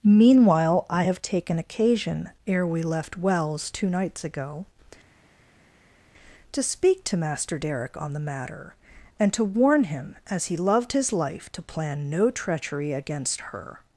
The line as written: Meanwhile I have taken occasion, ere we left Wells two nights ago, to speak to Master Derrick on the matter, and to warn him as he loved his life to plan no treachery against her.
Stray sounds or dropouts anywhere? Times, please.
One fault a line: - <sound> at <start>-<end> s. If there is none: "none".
none